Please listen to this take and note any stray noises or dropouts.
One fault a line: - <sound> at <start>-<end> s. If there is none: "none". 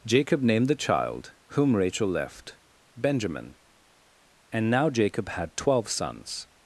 none